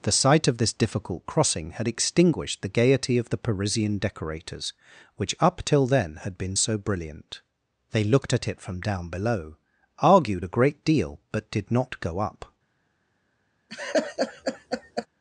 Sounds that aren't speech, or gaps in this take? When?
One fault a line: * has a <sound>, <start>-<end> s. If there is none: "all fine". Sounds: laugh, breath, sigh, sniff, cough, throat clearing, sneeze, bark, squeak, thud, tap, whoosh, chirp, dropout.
* has a laugh, 13.7-15.1 s